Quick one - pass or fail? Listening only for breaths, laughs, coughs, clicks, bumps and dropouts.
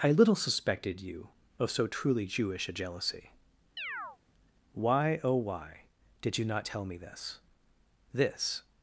fail